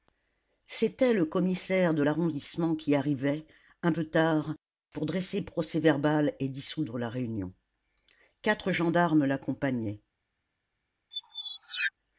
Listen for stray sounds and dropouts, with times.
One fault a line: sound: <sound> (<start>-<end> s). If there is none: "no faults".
sound: squeak (11.1-11.9 s)